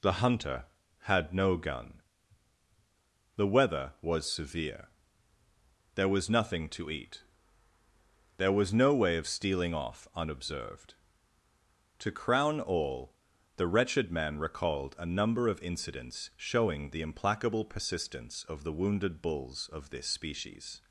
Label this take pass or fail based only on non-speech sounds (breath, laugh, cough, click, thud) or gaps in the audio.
pass